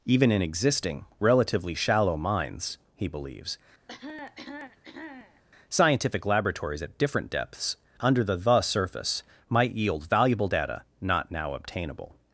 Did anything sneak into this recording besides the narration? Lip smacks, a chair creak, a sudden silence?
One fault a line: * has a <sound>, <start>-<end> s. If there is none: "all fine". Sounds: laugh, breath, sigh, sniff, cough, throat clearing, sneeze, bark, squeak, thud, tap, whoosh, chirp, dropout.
* has a cough, 3.9-5.4 s